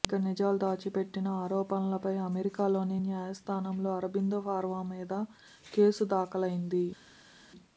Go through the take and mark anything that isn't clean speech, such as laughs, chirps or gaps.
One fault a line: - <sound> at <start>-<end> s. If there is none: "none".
none